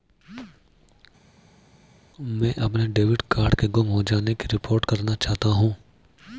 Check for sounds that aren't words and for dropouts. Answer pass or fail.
pass